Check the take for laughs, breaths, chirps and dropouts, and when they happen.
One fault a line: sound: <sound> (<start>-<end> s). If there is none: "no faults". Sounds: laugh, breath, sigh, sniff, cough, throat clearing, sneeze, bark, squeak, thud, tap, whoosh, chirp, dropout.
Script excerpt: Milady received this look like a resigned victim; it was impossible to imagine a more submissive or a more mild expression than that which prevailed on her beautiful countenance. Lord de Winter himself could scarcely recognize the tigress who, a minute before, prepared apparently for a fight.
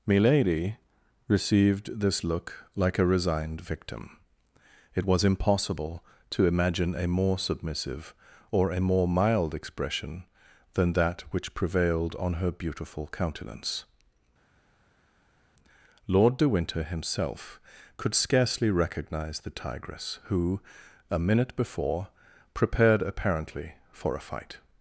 no faults